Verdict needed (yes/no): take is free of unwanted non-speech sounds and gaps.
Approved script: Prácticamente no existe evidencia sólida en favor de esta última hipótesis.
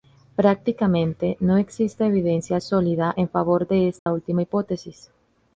no